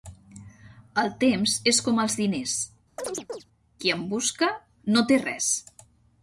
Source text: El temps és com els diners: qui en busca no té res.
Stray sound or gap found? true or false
true